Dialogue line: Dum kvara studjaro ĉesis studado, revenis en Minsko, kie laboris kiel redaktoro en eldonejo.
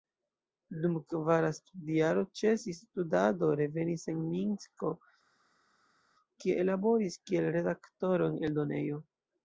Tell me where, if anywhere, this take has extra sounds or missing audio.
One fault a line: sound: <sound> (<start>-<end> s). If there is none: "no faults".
no faults